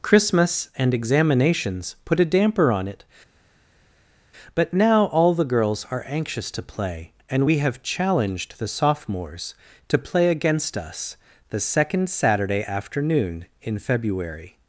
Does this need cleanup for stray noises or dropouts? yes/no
no